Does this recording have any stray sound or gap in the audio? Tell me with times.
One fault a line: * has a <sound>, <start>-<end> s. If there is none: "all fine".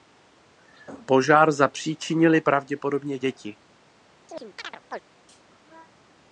* has a chirp, 4.3-5.0 s